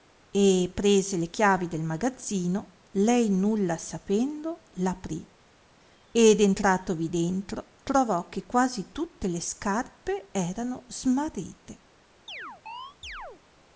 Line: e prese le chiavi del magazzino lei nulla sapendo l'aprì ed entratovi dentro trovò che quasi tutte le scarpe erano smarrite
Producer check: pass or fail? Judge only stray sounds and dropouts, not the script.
fail